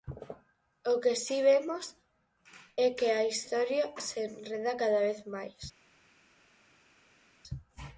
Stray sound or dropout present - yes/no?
no